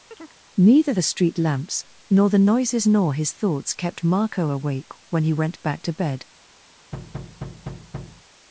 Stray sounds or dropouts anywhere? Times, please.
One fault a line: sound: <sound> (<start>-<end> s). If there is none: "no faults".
sound: chirp (0.1-0.4 s)
sound: thud (6.9-8.2 s)